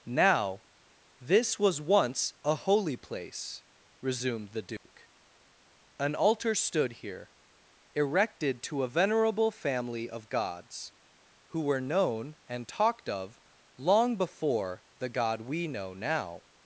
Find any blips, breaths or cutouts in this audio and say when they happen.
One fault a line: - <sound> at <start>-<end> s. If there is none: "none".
- dropout at 4.8-4.9 s